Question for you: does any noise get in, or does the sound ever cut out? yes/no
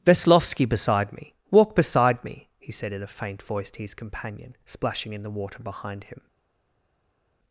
no